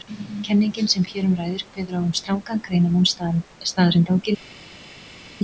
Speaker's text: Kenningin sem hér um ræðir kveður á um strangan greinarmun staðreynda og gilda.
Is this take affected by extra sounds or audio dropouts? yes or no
no